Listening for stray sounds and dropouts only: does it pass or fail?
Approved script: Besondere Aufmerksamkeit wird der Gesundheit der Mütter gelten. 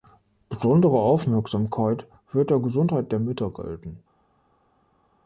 pass